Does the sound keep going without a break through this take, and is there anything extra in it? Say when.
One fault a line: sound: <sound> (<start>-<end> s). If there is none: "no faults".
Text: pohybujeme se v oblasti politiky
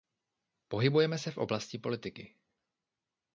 no faults